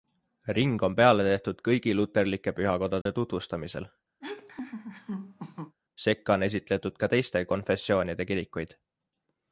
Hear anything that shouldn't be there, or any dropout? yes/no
yes